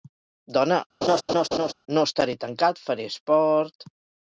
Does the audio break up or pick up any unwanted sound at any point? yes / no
yes